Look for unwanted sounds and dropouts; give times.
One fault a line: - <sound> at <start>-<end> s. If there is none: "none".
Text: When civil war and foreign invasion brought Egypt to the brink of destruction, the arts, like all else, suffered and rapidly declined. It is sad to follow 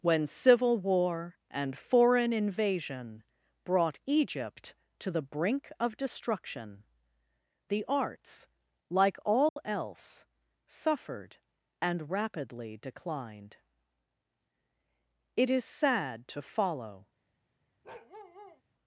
- dropout at 9.5-9.6 s
- bark at 17.8-18.6 s